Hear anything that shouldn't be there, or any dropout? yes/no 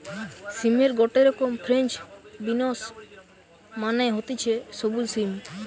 no